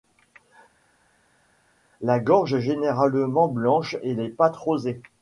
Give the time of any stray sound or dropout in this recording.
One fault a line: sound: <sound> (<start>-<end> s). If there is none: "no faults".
no faults